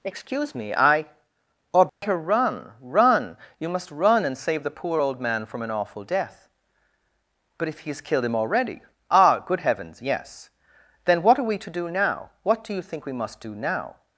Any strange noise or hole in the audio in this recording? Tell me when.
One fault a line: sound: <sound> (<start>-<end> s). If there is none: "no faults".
sound: dropout (1.9-2.0 s)